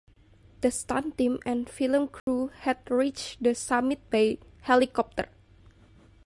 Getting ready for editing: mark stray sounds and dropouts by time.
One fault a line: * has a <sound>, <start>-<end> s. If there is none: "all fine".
* has a dropout, 2.2-2.3 s